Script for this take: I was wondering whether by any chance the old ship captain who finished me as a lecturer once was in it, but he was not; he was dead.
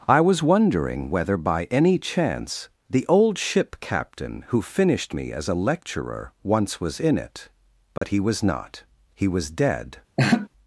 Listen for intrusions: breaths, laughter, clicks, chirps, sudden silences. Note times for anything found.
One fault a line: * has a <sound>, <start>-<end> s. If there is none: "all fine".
* has a dropout, 8.0-8.0 s
* has a laugh, 10.2-10.5 s